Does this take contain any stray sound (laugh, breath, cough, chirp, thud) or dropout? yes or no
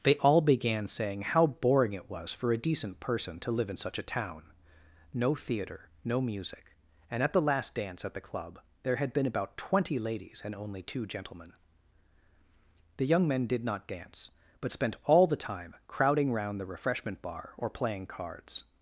no